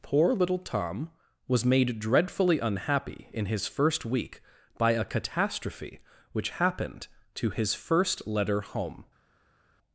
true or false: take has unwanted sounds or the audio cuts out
false